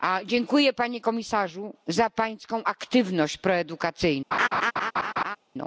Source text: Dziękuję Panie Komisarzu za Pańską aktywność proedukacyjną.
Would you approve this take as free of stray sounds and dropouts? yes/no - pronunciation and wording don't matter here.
no